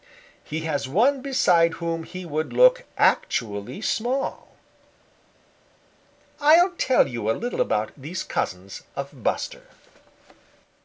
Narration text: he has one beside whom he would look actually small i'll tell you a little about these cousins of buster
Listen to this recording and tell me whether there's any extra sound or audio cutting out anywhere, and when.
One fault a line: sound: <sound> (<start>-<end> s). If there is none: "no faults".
no faults